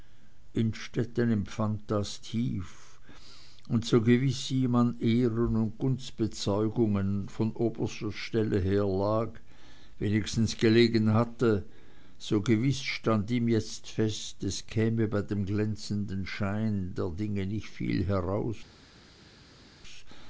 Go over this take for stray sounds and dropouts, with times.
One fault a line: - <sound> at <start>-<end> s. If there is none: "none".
none